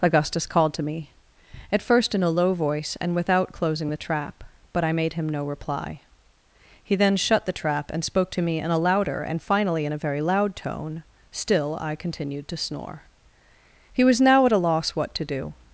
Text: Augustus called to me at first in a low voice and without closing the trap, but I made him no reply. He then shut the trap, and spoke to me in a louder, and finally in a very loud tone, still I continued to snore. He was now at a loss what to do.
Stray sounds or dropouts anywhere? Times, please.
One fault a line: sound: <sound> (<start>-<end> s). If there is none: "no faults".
no faults